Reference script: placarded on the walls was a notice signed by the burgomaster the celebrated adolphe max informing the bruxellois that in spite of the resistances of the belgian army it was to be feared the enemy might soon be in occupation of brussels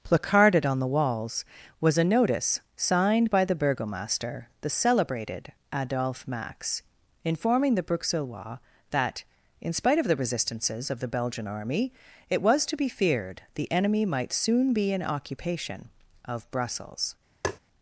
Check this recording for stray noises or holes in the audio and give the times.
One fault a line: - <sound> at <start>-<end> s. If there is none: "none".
- tap at 17.4-17.6 s